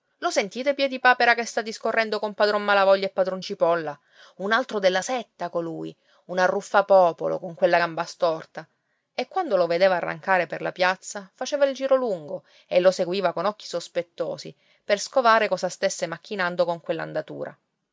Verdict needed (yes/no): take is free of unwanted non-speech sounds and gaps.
yes